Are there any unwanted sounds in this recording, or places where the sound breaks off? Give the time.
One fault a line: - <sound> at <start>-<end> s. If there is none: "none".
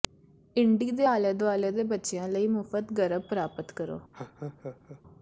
- laugh at 4.1-5.0 s